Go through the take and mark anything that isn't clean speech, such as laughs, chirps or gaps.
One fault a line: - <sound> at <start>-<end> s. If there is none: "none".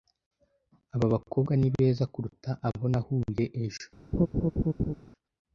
- laugh at 4.1-4.9 s